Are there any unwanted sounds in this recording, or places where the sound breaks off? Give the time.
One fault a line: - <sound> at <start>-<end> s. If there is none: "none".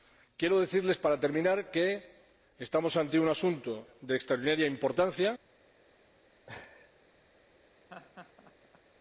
- laugh at 6.5-6.9 s
- laugh at 7.9-8.8 s